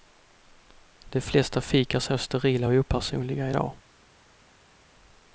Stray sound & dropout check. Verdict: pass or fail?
pass